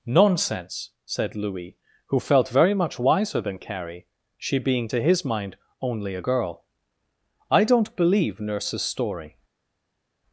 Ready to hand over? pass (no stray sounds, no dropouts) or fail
pass